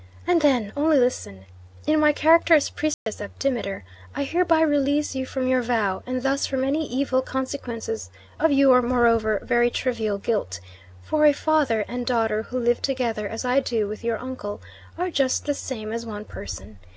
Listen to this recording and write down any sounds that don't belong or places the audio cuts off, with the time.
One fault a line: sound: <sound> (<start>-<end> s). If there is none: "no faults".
sound: dropout (2.9-3.1 s)